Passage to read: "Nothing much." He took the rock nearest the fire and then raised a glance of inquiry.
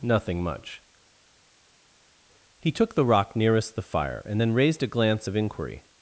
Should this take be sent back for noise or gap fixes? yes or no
no